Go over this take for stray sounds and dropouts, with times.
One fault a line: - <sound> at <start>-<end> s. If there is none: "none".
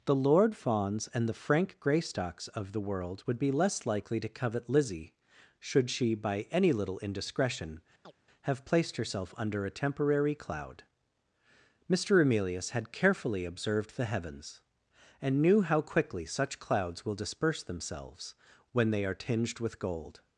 - chirp at 8.0-8.1 s